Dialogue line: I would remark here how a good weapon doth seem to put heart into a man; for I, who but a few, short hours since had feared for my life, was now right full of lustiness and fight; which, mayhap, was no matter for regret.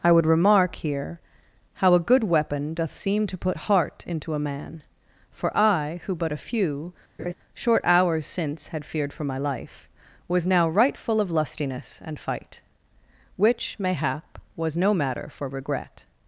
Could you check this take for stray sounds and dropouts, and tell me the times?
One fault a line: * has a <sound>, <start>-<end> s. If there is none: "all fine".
* has a laugh, 7.2-7.3 s